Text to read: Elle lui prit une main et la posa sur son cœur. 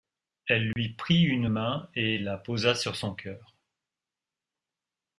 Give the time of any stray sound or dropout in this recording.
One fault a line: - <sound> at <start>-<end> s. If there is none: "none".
- dropout at 0.7-0.8 s